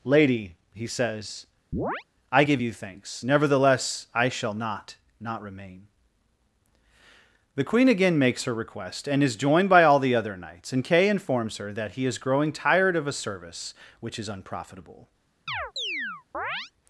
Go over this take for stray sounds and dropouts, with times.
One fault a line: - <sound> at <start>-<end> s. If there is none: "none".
- chirp at 1.7-2.0 s
- chirp at 15.5-16.7 s